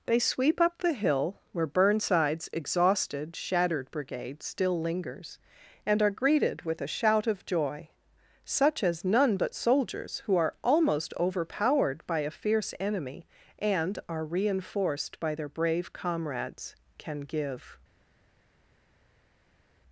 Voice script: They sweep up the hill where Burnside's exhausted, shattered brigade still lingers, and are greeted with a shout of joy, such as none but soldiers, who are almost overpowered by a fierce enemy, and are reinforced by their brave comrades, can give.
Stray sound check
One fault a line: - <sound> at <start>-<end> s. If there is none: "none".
none